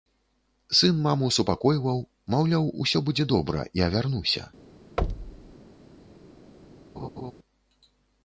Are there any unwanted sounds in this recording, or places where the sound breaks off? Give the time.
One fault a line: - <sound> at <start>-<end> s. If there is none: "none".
- thud at 5.0-5.5 s
- laugh at 7.0-7.3 s